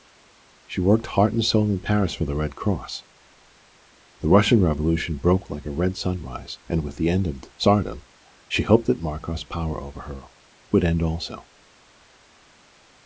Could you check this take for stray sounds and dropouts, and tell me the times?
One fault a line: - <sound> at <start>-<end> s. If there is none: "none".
none